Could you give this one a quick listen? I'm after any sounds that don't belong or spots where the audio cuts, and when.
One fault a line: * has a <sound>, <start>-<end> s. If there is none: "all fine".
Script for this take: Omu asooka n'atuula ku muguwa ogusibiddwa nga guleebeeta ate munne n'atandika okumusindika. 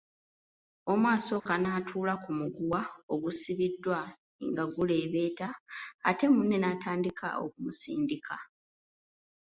* has a dropout, 1.4-1.5 s